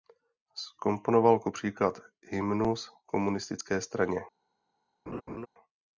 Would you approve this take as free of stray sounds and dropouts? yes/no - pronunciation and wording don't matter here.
no